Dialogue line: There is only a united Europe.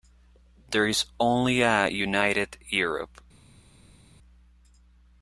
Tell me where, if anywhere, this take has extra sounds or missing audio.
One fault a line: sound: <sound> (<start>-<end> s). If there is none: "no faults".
no faults